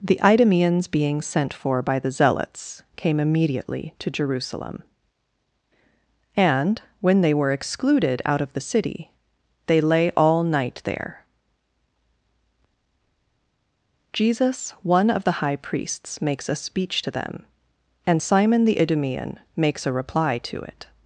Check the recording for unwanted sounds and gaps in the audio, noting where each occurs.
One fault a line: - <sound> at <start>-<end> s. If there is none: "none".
none